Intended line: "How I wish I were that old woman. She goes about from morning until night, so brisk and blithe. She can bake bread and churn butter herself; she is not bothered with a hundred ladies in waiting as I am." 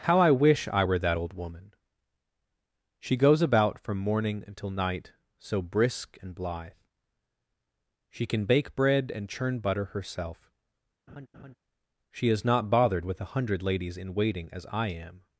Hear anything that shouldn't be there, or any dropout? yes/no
yes